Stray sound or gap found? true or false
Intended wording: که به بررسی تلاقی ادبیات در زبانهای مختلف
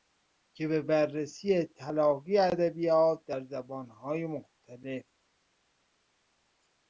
false